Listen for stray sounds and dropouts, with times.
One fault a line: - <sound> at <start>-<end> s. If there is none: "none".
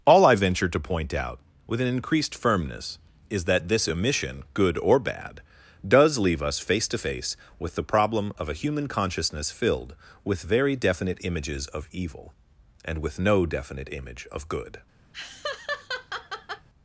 - laugh at 15.1-16.7 s